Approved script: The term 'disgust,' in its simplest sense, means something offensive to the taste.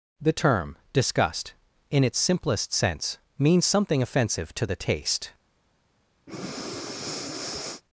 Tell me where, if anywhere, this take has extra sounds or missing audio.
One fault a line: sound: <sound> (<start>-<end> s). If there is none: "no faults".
sound: breath (6.3-7.8 s)